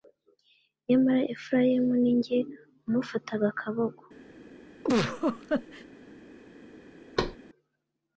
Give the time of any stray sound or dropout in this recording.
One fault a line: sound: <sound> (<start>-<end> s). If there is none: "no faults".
sound: laugh (4.8-5.8 s)
sound: thud (7.2-7.4 s)